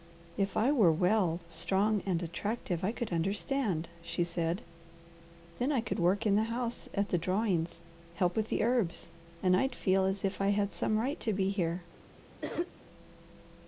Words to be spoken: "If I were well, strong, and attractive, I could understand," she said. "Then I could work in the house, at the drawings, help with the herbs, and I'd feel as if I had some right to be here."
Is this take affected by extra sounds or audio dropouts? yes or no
yes